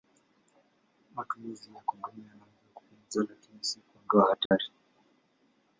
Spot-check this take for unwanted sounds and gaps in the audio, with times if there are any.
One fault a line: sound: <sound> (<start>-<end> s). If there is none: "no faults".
sound: dropout (4.5-4.5 s)